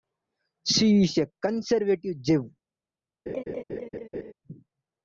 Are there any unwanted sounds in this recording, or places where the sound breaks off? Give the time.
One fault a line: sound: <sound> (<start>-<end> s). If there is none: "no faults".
sound: laugh (3.3-4.3 s)